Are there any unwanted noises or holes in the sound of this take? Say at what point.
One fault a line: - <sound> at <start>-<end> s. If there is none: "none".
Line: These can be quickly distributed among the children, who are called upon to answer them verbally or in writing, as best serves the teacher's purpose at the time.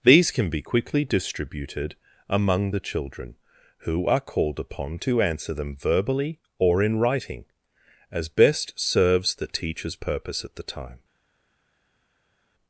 none